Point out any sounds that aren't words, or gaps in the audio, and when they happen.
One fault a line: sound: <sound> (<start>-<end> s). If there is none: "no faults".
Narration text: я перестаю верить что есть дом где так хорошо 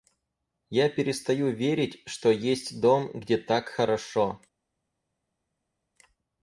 no faults